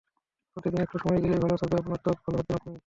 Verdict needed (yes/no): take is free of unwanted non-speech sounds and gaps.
yes